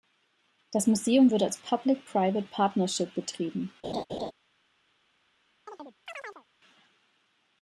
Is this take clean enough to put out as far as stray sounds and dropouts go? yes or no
no